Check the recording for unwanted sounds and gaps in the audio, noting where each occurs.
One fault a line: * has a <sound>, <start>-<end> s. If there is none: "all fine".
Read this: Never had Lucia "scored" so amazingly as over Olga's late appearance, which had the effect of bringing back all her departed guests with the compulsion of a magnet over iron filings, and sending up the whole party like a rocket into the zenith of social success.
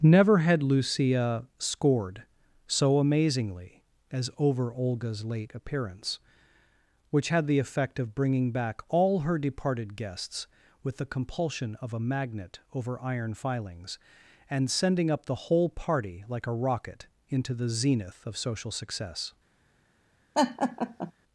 * has a laugh, 20.3-21.1 s